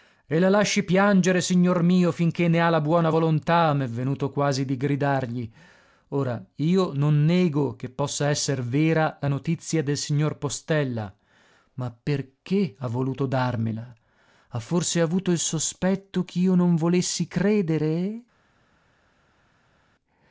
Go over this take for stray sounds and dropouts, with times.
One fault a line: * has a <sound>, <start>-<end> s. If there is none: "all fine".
all fine